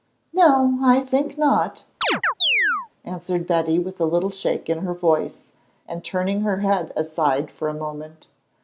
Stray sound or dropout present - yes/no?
yes